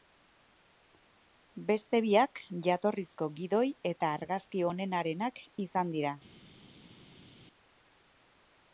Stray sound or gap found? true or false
false